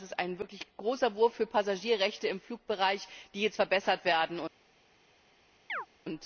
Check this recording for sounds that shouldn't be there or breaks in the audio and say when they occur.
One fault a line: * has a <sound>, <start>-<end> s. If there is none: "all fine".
* has a chirp, 5.7-5.9 s